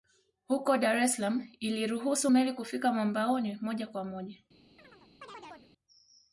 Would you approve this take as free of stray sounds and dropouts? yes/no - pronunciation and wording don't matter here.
no